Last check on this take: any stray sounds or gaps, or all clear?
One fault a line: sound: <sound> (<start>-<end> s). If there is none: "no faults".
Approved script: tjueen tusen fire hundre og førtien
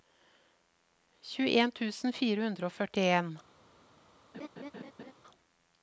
sound: laugh (4.3-5.1 s)